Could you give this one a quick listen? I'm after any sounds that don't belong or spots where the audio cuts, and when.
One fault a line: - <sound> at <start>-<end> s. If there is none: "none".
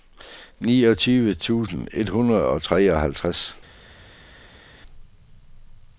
none